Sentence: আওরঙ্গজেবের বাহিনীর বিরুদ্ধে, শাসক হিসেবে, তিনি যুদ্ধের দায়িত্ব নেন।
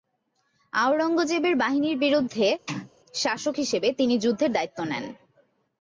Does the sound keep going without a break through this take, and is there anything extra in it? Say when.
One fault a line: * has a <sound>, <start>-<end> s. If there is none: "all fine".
* has a sneeze, 2.7-2.9 s